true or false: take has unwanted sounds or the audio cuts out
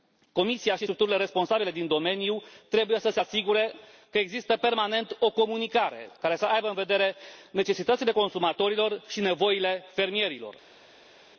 false